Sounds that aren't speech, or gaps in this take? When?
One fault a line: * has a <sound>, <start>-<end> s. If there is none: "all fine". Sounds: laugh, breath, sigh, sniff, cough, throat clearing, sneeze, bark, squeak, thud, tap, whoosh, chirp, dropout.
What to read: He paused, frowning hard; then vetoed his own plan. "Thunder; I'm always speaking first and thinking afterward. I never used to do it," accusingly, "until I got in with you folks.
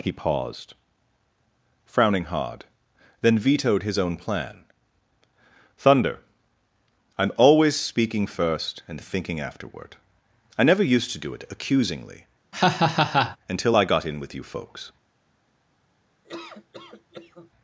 * has a laugh, 12.5-13.4 s
* has a laugh, 16.2-17.5 s